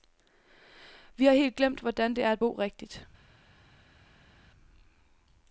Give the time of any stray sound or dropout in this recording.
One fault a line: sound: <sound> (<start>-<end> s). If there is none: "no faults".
no faults